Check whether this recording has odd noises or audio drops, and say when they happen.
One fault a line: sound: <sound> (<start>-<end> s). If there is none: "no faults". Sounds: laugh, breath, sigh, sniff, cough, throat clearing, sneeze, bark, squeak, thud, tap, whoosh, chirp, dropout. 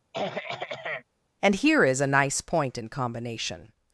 sound: throat clearing (0.1-1.0 s)